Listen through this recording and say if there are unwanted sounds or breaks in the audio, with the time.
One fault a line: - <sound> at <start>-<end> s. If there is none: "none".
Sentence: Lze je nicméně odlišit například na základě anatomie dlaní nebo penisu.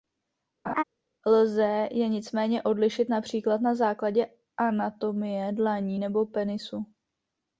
- laugh at 0.7-0.8 s